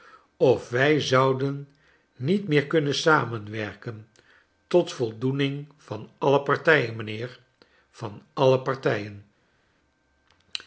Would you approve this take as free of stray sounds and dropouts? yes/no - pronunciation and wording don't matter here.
yes